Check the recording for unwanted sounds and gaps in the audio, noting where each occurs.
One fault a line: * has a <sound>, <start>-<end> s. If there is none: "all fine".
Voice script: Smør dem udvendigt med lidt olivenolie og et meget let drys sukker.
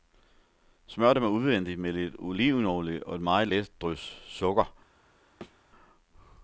* has a thud, 5.4-5.6 s